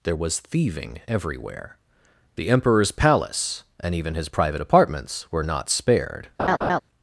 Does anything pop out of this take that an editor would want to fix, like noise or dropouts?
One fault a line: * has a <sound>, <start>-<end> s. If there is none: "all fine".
* has a laugh, 6.4-6.8 s